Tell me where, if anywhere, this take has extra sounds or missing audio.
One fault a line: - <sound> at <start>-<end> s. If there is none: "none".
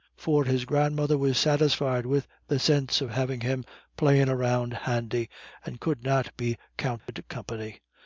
- dropout at 7.0-7.1 s